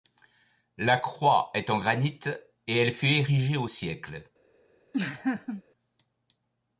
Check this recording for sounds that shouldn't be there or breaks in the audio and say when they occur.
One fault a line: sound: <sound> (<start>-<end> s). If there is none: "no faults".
sound: laugh (4.9-5.6 s)